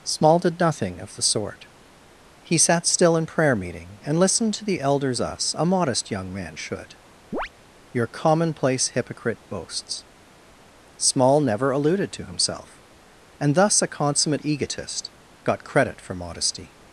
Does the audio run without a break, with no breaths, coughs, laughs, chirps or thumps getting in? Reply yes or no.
no